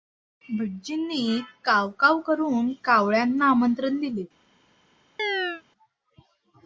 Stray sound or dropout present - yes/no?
yes